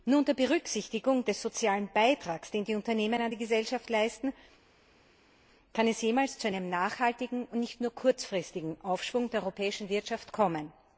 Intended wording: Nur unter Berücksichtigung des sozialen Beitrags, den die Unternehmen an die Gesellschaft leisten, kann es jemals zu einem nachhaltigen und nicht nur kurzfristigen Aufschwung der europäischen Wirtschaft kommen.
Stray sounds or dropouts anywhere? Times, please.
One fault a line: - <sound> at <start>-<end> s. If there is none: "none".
none